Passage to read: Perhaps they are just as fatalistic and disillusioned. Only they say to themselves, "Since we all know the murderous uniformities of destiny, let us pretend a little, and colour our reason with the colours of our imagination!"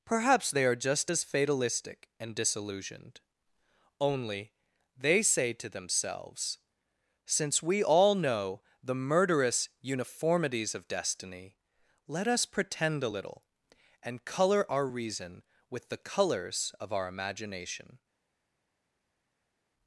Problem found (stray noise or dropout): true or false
false